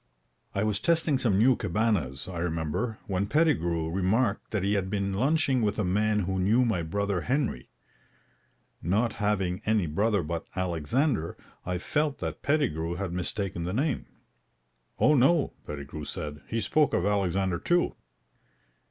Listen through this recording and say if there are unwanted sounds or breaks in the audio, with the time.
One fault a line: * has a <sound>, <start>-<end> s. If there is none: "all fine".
all fine